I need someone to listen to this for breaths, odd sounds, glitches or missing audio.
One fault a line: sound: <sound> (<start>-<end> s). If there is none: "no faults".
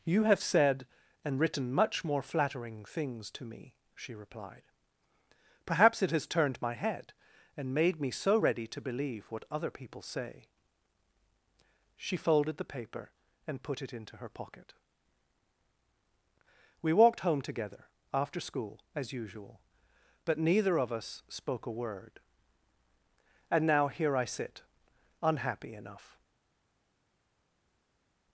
no faults